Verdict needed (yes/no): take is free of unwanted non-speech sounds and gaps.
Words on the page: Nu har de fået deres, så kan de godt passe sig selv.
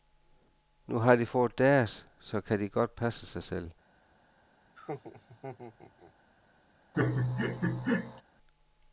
no